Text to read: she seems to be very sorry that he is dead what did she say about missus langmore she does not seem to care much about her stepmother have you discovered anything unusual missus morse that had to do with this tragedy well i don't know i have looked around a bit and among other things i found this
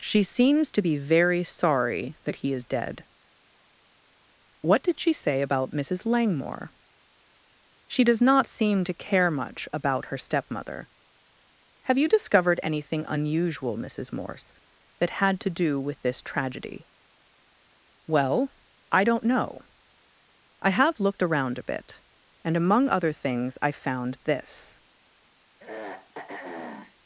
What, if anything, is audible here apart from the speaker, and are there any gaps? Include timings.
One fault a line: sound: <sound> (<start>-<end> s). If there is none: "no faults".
sound: throat clearing (25.6-27.0 s)